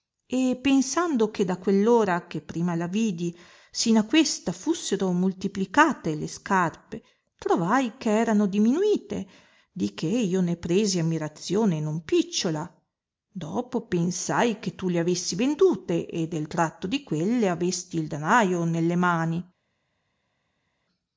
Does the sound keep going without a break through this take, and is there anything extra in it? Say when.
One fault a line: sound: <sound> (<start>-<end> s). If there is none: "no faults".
no faults